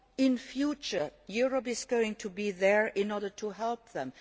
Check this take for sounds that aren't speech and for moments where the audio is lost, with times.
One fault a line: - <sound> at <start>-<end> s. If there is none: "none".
none